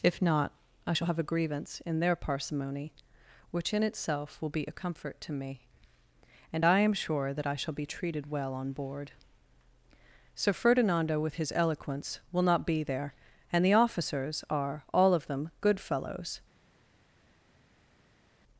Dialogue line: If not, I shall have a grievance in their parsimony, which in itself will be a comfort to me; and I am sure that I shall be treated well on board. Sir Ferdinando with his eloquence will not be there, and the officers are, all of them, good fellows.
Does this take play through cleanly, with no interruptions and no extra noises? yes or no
yes